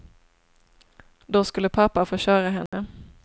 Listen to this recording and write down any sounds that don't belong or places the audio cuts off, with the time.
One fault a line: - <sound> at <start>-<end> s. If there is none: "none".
- dropout at 2.7-2.7 s